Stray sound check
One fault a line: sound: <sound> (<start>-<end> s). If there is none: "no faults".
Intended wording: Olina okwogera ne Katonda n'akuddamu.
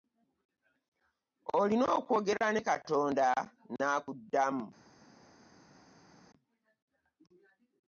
no faults